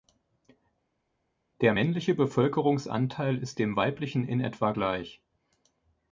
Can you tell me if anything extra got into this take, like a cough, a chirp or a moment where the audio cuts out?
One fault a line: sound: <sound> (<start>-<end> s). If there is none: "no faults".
no faults